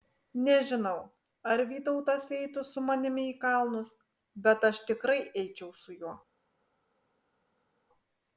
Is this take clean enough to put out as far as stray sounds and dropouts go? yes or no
yes